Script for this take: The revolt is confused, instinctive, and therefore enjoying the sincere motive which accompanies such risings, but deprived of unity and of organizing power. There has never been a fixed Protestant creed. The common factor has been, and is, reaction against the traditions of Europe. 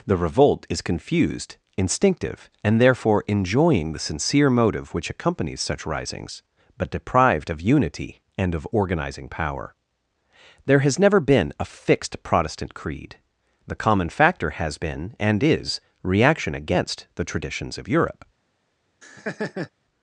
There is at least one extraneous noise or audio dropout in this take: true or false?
true